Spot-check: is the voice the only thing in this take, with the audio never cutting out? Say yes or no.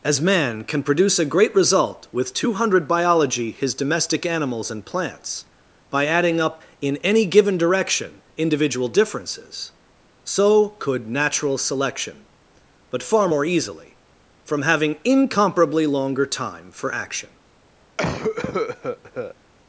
no